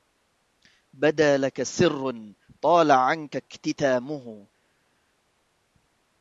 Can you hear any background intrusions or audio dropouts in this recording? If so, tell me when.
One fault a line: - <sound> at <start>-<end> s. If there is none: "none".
none